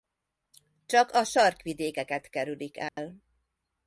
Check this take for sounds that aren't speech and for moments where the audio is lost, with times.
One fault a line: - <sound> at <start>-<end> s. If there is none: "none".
- dropout at 2.9-3.0 s